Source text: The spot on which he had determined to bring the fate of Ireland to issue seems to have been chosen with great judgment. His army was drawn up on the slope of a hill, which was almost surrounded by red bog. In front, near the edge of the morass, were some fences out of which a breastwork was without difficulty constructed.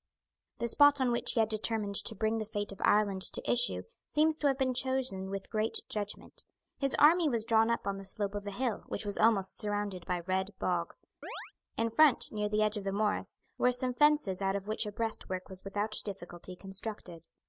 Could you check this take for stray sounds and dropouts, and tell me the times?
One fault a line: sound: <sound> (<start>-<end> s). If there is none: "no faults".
sound: chirp (11.2-11.5 s)